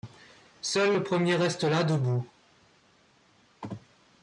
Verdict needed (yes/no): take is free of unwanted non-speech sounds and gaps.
yes